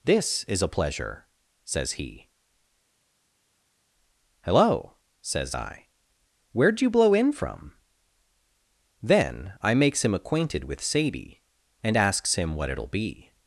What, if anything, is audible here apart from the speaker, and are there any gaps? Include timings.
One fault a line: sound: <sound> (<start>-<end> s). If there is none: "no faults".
no faults